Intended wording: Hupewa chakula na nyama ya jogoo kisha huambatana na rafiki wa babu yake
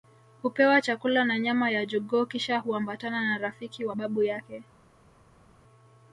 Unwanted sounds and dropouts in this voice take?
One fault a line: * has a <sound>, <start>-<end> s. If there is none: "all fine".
all fine